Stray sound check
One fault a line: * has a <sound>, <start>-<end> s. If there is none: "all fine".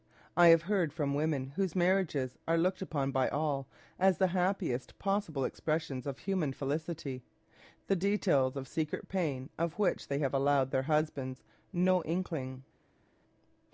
all fine